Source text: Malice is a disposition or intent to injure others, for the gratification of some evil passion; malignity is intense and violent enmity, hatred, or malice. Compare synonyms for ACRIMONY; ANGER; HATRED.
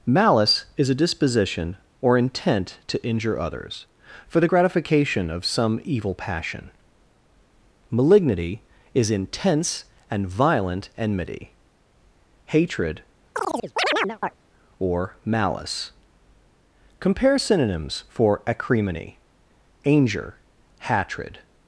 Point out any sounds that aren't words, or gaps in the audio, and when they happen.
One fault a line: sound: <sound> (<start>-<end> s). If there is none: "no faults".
sound: chirp (13.3-14.4 s)